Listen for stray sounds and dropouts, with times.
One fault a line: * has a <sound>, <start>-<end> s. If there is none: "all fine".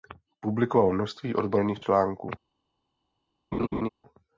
* has a laugh, 3.5-3.9 s